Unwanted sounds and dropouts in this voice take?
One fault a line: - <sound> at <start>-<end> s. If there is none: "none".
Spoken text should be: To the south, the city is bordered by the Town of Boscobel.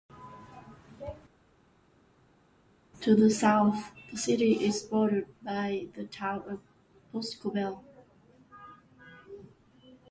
none